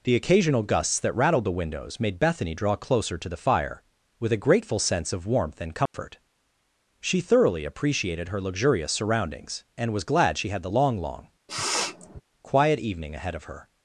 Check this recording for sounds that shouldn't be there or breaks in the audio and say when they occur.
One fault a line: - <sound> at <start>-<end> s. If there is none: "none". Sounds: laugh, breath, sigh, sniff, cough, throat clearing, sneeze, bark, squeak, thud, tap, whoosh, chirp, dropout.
- dropout at 5.9-5.9 s
- sniff at 11.5-12.2 s